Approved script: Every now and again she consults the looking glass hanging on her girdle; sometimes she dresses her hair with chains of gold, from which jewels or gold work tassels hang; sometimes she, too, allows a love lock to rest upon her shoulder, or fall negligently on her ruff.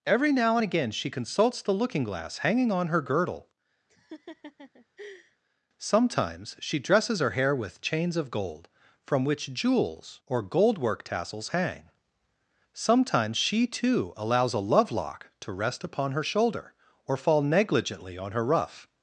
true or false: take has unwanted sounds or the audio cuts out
true